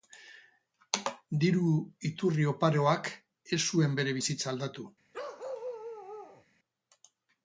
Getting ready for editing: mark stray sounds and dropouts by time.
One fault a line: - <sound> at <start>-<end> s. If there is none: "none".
- bark at 5.1-6.5 s